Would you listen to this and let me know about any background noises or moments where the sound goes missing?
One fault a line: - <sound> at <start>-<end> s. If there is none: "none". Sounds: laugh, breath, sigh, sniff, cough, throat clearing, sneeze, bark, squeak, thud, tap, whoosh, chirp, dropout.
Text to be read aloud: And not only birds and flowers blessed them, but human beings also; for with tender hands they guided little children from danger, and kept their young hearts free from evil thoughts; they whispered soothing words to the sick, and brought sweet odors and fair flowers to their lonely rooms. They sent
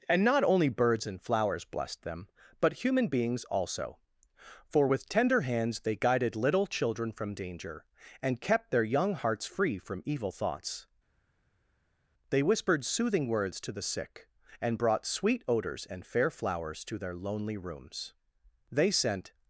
none